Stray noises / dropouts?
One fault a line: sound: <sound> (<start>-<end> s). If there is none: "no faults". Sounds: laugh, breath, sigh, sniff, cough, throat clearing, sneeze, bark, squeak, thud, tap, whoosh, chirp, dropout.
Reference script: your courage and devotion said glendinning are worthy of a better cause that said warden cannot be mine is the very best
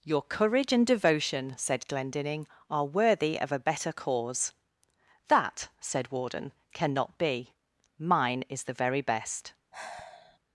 sound: sigh (9.7-10.4 s)